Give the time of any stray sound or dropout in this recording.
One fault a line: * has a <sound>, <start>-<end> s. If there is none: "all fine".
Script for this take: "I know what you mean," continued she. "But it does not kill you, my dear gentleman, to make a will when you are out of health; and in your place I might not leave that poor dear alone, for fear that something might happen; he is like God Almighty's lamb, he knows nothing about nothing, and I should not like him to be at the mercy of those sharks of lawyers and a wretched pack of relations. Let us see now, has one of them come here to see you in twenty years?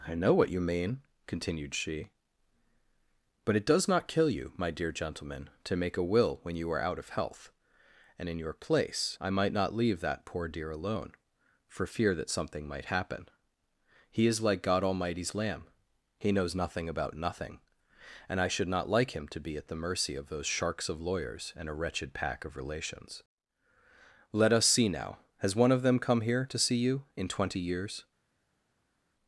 all fine